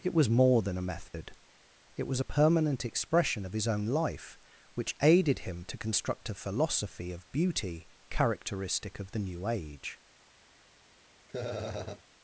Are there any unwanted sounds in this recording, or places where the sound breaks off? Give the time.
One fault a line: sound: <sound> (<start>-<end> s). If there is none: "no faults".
sound: dropout (1.1-1.1 s)
sound: laugh (11.3-12.0 s)